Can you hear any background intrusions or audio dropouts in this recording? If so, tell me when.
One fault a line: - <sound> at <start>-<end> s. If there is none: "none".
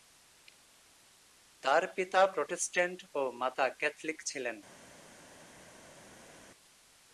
none